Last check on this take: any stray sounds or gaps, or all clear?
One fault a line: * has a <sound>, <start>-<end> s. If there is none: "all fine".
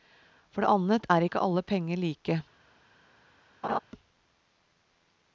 * has a laugh, 3.6-3.8 s